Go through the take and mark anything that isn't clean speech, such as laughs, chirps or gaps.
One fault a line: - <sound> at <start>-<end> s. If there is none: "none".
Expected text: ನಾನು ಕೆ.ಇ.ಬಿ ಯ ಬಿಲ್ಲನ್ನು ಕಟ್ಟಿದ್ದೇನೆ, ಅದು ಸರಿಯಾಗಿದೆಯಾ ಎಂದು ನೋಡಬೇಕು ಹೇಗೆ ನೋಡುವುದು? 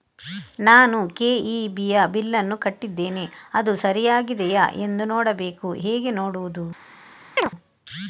- chirp at 7.4-7.5 s